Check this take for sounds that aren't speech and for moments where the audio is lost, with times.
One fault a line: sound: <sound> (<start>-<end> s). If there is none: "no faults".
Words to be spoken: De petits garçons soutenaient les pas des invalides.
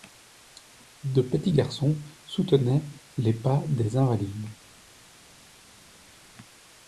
no faults